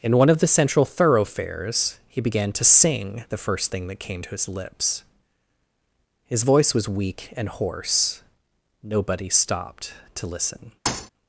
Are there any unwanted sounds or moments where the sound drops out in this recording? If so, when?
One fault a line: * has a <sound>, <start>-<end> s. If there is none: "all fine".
* has a thud, 10.9-11.1 s